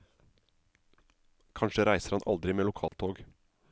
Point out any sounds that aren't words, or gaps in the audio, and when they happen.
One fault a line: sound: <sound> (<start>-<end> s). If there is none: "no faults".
sound: dropout (2.9-2.9 s)